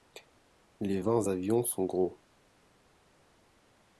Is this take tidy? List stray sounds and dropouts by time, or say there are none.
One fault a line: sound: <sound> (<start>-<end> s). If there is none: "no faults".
no faults